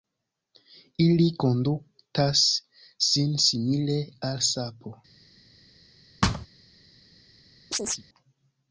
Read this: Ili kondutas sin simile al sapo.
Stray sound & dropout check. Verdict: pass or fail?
fail